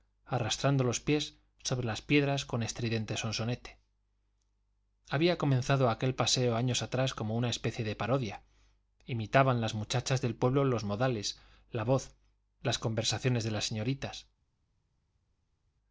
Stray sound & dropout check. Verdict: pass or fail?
pass